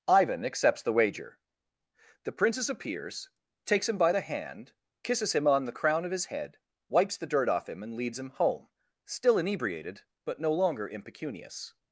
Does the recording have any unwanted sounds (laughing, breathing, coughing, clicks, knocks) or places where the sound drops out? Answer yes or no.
no